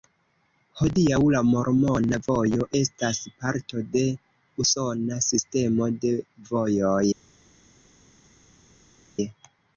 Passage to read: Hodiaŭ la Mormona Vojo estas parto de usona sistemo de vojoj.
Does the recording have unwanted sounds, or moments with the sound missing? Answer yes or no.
no